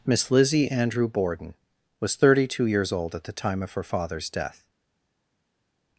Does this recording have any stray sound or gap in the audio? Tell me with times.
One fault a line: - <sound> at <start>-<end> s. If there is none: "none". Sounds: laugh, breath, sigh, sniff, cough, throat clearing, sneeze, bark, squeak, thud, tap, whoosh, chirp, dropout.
none